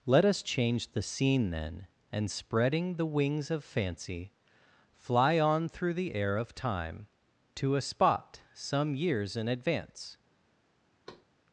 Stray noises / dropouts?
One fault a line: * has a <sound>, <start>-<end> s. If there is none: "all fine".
* has a thud, 11.1-11.3 s